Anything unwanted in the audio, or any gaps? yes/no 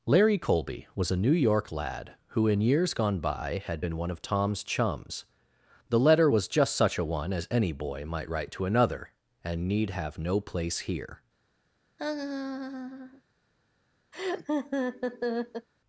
yes